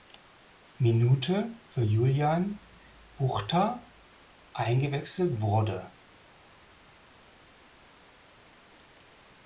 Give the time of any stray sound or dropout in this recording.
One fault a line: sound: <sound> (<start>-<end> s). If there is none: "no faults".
no faults